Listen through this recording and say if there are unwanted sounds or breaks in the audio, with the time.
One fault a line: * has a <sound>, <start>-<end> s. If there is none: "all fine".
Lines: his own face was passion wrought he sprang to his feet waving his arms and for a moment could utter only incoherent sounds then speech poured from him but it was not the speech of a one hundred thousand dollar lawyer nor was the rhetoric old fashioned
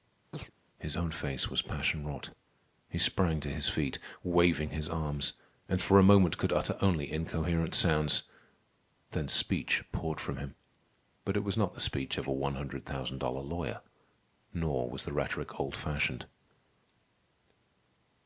* has a chirp, 0.3-0.5 s